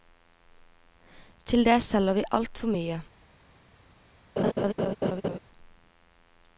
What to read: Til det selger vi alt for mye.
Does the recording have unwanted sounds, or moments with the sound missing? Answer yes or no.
yes